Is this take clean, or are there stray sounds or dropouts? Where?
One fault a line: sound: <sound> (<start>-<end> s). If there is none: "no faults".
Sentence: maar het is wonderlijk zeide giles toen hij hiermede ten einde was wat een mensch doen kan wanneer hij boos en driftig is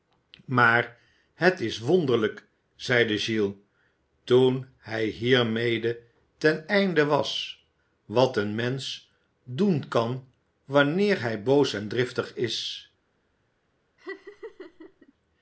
sound: laugh (14.0-15.1 s)